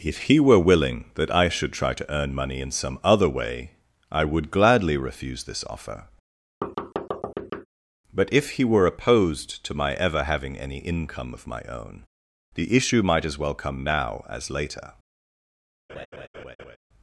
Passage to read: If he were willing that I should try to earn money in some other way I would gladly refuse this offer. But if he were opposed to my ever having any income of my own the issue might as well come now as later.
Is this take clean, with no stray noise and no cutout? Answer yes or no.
no